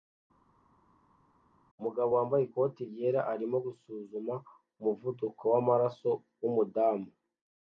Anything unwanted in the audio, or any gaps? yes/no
no